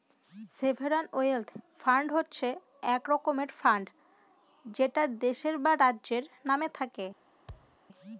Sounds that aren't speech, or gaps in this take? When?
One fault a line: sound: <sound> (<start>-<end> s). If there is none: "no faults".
sound: thud (7.5-7.8 s)